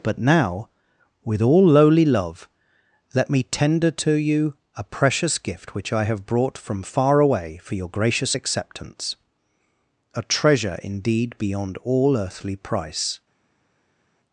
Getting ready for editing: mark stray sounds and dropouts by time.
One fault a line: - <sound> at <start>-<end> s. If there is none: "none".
none